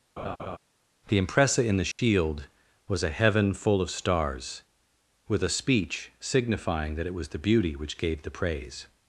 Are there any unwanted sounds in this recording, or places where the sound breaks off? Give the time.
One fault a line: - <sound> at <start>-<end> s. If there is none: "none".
- laugh at 0.2-0.6 s
- dropout at 1.9-2.0 s